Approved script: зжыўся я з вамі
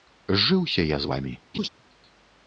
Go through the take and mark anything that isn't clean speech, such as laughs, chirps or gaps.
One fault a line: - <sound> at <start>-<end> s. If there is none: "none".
- laugh at 1.5-1.7 s